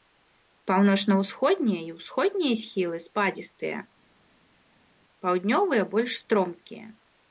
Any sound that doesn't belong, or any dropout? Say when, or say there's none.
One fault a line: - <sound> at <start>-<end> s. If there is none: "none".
none